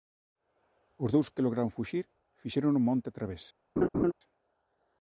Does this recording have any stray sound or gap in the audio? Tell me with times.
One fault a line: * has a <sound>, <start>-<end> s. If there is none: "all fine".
* has a laugh, 3.8-4.1 s